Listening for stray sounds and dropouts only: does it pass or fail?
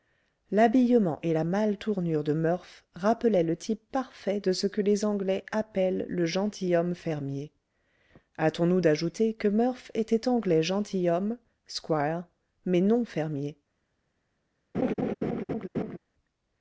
fail